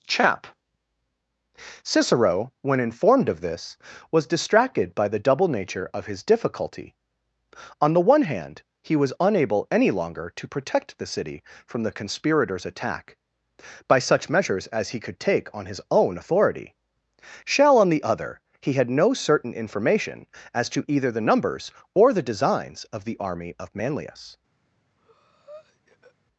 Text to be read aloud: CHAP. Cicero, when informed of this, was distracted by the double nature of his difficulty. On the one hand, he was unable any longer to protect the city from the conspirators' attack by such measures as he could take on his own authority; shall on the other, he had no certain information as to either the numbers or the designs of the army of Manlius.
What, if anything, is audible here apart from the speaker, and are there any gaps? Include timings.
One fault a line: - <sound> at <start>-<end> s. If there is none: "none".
- breath at 25.0-26.2 s